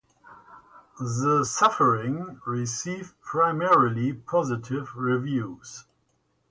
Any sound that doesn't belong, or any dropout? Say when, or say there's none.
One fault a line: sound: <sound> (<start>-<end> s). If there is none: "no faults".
no faults